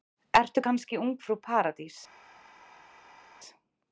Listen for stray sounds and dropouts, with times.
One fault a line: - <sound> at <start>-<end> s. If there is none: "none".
none